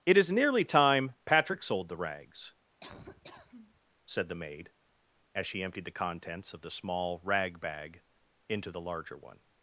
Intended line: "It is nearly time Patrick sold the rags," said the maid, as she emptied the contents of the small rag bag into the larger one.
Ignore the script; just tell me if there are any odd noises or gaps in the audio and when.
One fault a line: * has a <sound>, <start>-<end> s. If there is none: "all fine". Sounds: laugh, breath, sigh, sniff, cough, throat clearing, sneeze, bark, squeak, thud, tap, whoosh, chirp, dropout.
* has a laugh, 2.8-3.8 s